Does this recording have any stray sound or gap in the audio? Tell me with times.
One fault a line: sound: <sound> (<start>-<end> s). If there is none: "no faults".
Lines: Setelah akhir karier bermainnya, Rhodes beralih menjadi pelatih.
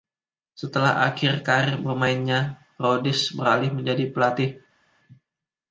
no faults